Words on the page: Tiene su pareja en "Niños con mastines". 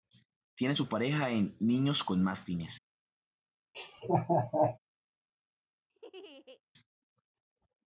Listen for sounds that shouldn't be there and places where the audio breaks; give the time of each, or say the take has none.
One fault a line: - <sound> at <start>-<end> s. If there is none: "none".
- laugh at 3.7-4.8 s
- laugh at 5.9-6.6 s